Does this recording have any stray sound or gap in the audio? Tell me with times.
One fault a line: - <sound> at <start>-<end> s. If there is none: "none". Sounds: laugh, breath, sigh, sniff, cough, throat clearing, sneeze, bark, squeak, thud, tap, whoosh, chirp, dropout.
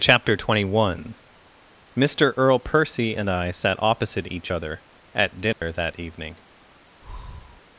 - dropout at 5.5-5.6 s
- breath at 7.0-7.6 s